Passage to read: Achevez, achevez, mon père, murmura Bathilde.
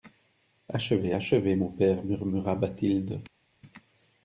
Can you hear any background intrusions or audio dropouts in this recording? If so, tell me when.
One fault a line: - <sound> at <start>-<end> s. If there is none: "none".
none